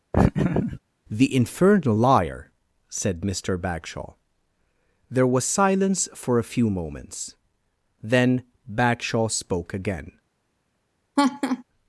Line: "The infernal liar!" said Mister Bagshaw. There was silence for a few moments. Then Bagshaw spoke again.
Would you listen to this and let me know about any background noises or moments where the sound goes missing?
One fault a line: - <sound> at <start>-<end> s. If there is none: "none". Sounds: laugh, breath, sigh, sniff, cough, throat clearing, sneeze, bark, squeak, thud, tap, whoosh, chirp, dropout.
- laugh at 0.1-0.8 s
- laugh at 11.2-11.6 s